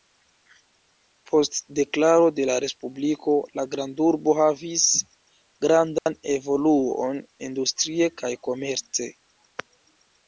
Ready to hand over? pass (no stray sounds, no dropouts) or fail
fail